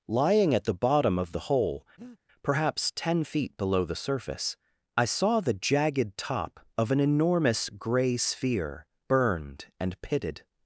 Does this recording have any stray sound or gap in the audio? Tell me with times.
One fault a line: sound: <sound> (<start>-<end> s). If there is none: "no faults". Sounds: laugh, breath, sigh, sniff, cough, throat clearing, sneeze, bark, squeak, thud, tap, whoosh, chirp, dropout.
sound: breath (2.0-2.2 s)